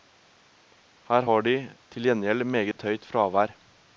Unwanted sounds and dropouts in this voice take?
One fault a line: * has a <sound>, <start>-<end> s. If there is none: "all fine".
* has a dropout, 2.7-2.8 s